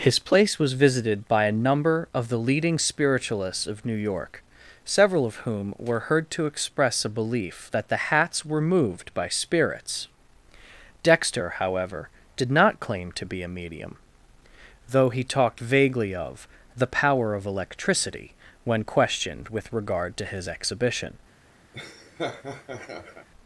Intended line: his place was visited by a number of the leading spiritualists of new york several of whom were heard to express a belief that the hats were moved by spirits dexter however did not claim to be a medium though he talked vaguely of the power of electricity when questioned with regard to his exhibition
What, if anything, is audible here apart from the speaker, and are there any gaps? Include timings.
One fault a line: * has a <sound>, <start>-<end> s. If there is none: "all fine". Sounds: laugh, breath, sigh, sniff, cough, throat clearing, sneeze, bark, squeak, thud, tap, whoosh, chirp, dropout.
* has a laugh, 21.7-23.3 s